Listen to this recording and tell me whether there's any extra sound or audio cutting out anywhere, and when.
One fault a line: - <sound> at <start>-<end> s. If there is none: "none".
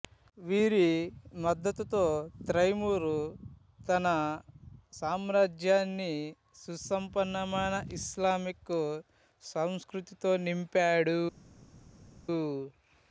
none